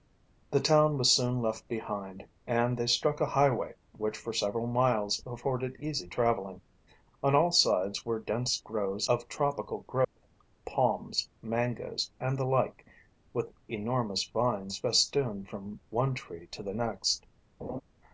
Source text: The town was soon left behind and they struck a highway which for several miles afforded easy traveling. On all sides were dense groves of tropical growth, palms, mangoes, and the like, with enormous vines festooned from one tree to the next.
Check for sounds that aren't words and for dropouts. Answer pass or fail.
fail